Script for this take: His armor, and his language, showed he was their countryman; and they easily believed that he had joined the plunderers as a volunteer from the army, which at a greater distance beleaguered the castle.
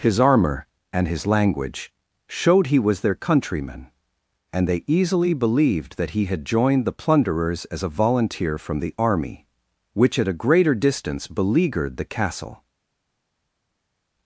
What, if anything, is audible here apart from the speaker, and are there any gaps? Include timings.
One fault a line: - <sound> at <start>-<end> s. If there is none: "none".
none